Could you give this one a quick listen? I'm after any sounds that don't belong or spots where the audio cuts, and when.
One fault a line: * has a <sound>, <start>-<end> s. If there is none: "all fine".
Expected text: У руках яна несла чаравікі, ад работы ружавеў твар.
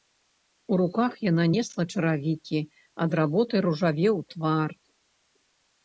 all fine